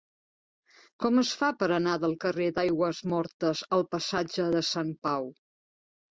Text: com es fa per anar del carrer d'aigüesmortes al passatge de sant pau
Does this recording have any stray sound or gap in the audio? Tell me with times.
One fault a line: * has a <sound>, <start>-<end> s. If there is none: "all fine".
all fine